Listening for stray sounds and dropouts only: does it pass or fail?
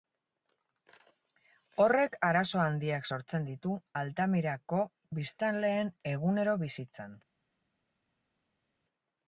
pass